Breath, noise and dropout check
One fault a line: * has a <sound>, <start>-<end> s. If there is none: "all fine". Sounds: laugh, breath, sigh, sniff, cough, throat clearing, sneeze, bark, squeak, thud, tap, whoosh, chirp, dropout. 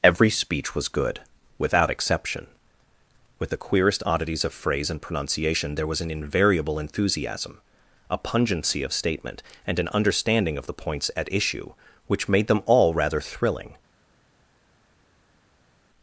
all fine